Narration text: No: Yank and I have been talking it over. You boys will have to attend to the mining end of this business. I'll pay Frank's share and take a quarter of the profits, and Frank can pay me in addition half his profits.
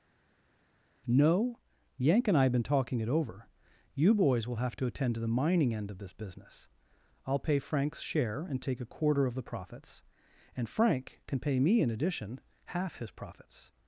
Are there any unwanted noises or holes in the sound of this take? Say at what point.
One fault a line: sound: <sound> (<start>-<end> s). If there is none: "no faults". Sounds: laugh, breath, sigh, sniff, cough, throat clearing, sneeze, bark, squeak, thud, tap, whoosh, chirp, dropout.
no faults